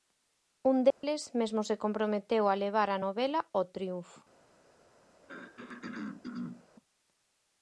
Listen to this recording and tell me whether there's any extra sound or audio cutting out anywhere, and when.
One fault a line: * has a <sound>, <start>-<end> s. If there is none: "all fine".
* has a dropout, 0.9-1.0 s
* has a throat clearing, 5.2-6.7 s